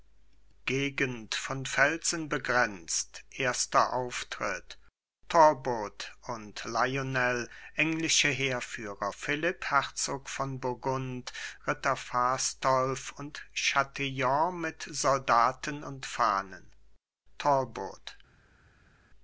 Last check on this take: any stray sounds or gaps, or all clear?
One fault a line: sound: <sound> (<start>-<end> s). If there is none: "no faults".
no faults